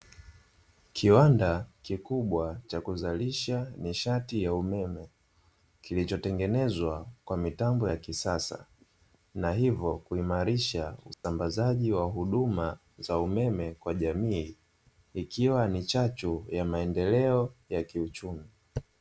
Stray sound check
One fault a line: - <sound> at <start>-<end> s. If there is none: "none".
- dropout at 11.1-11.2 s